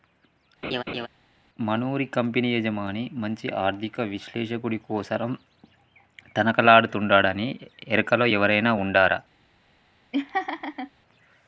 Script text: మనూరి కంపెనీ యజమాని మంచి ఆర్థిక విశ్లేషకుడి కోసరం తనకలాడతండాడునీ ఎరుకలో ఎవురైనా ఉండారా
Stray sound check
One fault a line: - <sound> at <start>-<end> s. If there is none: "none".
- laugh at 0.6-1.1 s
- laugh at 10.1-10.9 s